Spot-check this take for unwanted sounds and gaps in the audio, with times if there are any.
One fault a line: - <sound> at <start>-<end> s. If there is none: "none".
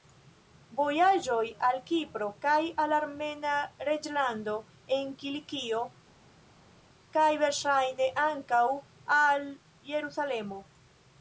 none